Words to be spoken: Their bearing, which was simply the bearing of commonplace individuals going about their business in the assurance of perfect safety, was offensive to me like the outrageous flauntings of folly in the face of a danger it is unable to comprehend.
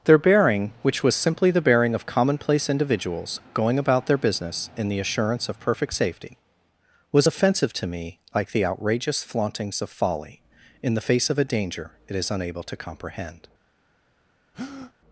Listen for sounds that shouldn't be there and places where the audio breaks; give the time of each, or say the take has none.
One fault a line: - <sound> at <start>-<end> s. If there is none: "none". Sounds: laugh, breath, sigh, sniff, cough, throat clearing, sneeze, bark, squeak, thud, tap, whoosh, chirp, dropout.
- breath at 14.5-14.9 s